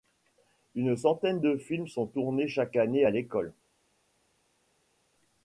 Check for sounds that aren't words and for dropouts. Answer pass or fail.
pass